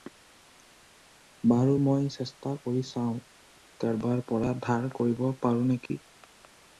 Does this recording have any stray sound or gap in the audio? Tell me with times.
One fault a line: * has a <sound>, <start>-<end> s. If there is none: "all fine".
* has a dropout, 5.9-5.9 s